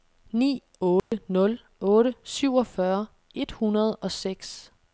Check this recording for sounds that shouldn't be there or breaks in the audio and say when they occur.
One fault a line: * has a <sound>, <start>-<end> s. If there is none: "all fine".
* has a dropout, 1.0-1.1 s